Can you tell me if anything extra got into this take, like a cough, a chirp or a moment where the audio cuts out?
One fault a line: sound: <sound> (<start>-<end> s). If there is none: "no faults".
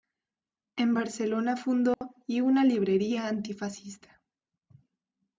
sound: dropout (1.9-2.0 s)